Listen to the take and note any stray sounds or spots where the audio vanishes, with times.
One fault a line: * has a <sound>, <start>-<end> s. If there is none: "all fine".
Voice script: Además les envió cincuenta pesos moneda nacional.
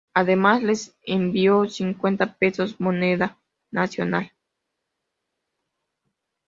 all fine